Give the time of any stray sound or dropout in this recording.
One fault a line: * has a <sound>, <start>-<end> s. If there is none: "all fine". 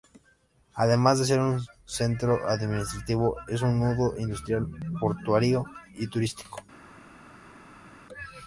all fine